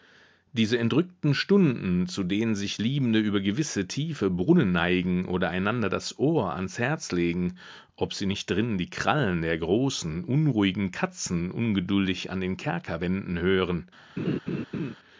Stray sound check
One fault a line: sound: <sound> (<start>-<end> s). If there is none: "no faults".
sound: laugh (14.2-14.9 s)